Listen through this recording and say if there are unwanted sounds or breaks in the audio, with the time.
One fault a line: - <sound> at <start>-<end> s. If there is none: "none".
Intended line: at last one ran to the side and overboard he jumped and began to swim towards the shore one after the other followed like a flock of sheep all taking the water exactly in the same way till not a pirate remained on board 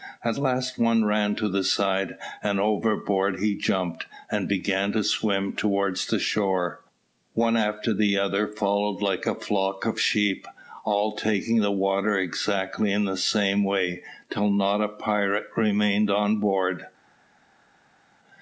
none